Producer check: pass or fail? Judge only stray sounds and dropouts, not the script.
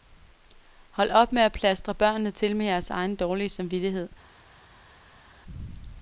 pass